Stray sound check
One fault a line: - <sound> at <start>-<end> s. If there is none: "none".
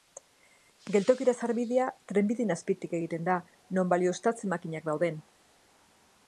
none